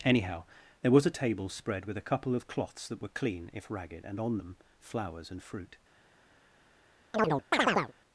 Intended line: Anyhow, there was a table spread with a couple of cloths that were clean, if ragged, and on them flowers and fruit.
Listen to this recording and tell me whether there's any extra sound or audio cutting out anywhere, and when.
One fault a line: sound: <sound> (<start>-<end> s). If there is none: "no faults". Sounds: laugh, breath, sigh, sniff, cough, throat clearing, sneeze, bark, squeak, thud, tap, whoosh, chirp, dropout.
sound: chirp (7.1-7.9 s)